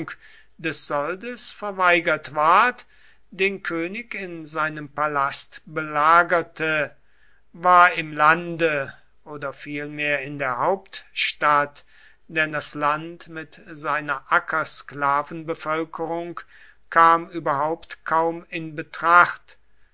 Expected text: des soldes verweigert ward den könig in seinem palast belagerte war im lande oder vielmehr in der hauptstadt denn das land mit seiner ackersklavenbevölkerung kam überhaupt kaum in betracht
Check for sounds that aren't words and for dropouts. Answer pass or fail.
pass